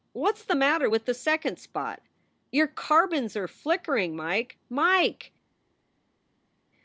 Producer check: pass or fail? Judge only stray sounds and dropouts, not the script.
pass